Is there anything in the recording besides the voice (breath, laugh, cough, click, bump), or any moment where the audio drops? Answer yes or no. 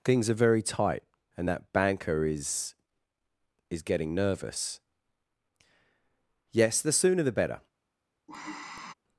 yes